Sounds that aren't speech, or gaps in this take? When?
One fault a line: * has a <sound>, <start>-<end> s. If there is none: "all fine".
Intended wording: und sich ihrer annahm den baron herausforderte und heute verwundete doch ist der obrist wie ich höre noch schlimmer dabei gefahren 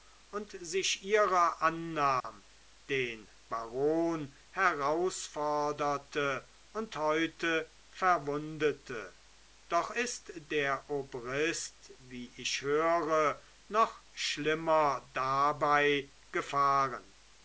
* has a dropout, 2.2-2.2 s